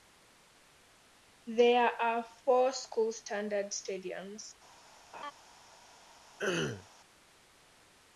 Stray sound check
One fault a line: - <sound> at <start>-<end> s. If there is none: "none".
- laugh at 5.1-5.3 s
- throat clearing at 6.4-6.9 s